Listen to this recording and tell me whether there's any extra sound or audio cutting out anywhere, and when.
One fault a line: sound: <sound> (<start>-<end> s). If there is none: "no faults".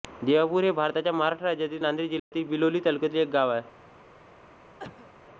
sound: dropout (2.2-2.3 s)
sound: cough (4.8-5.1 s)